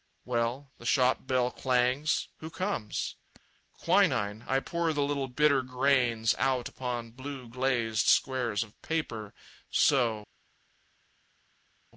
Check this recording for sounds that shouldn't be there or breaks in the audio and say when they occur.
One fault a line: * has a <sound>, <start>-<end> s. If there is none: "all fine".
all fine